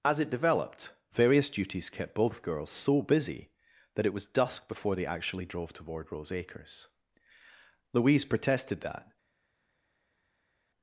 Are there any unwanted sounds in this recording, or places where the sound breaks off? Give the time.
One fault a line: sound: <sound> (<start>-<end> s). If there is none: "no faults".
no faults